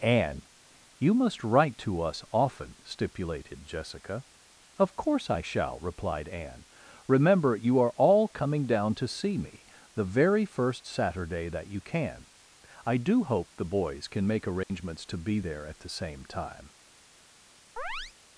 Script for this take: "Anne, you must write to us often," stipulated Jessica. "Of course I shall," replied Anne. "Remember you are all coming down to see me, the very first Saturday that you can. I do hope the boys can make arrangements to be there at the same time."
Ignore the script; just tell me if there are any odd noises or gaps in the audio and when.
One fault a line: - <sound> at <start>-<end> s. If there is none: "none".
- dropout at 14.6-14.7 s
- chirp at 17.8-18.1 s